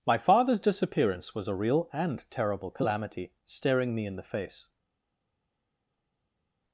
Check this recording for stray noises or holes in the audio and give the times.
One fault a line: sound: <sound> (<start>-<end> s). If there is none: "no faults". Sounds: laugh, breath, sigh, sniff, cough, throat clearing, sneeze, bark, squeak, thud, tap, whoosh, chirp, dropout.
no faults